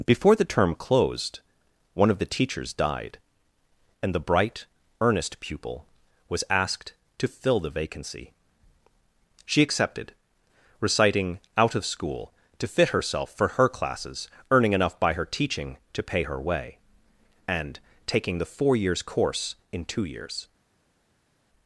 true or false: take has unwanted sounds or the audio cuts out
false